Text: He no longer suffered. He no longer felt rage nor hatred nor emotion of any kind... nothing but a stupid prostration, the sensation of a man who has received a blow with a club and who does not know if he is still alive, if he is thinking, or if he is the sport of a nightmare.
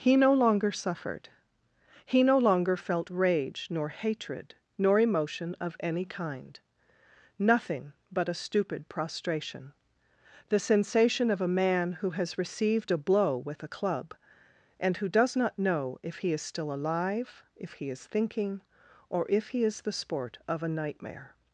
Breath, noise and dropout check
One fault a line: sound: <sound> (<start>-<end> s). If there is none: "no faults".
no faults